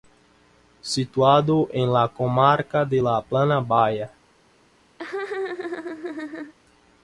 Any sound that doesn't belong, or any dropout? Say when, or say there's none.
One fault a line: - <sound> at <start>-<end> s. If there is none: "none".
- laugh at 5.0-6.5 s